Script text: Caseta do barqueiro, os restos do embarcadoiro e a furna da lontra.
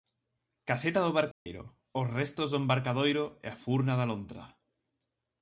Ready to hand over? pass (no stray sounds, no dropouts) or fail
fail